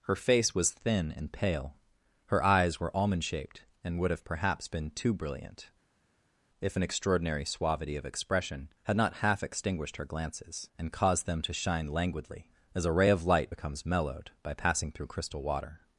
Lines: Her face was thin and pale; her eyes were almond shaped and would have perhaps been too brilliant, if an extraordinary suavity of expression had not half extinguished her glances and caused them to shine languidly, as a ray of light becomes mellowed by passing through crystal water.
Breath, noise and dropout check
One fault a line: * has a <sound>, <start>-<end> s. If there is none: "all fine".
all fine